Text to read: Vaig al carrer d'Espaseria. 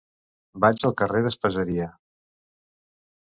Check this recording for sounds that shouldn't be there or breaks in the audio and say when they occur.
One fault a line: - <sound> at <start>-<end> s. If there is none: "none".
none